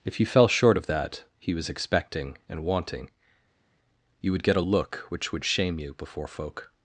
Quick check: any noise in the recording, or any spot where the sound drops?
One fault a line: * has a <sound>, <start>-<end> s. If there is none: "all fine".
all fine